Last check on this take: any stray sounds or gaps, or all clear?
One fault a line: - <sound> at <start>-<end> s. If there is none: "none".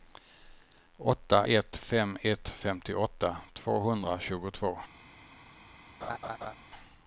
- laugh at 6.0-6.5 s